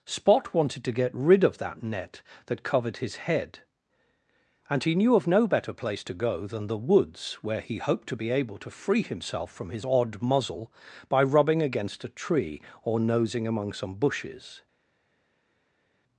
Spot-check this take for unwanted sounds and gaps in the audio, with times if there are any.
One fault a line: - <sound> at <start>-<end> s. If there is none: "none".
none